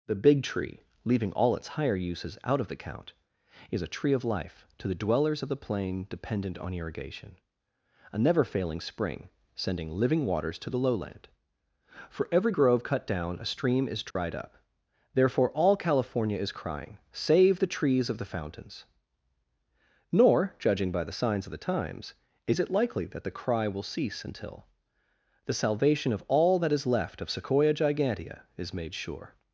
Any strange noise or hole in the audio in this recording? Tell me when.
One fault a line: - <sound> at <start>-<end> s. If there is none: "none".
- dropout at 14.1-14.2 s